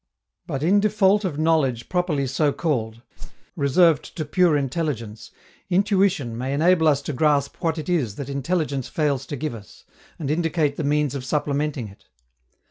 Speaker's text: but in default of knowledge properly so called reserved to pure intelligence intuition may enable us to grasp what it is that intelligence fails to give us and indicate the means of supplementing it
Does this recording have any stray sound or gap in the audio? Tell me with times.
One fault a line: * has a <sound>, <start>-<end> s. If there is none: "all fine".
* has a whoosh, 3.2-3.5 s